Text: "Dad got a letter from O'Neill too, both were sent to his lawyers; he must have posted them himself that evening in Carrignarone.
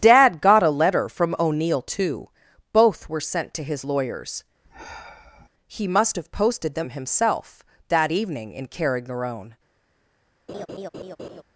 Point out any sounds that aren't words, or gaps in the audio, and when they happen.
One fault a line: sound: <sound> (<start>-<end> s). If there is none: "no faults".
sound: sigh (4.6-5.5 s)
sound: laugh (10.5-11.4 s)